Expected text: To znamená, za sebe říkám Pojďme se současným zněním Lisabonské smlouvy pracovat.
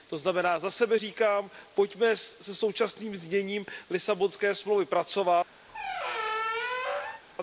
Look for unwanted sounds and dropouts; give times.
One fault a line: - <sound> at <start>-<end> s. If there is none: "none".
- squeak at 5.7-7.2 s